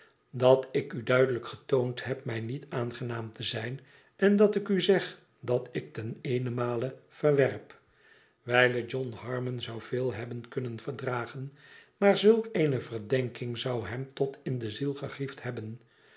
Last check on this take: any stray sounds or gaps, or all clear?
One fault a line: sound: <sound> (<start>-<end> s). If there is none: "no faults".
no faults